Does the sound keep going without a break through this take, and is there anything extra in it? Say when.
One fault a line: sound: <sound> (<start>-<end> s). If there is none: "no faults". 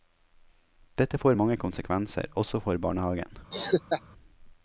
sound: laugh (3.5-4.0 s)